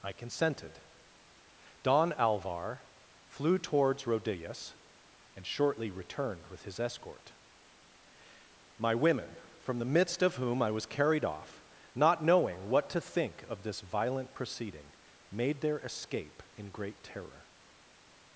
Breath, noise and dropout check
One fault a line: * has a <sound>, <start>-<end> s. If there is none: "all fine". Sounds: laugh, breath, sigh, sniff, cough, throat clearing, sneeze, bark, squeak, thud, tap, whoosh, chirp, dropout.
all fine